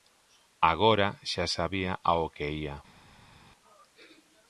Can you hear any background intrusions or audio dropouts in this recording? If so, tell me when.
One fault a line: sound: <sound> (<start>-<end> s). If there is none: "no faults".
no faults